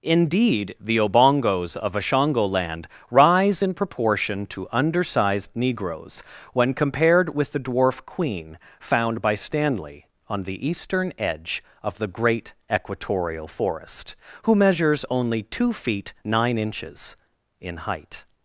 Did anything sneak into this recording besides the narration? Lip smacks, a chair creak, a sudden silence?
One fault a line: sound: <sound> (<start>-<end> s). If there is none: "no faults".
no faults